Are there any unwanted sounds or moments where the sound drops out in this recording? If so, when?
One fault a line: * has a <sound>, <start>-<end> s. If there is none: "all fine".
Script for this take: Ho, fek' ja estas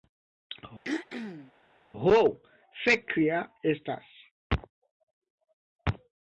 * has a throat clearing, 0.8-1.5 s